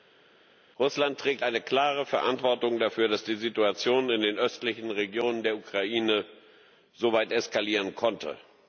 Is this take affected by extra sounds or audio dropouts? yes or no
no